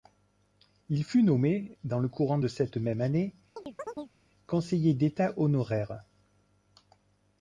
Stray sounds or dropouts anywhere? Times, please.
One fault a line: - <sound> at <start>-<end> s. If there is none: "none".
- chirp at 3.6-4.1 s